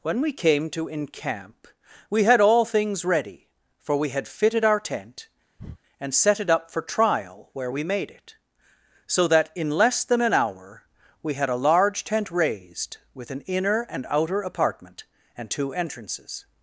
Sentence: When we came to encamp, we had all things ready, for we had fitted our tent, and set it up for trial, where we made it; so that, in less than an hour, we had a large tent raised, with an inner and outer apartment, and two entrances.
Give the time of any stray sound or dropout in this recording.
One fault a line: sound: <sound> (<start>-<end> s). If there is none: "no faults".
sound: breath (5.6-5.8 s)